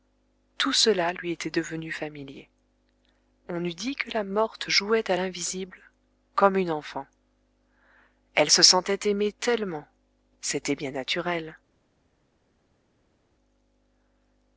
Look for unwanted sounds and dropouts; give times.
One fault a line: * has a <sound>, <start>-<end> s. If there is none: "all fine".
all fine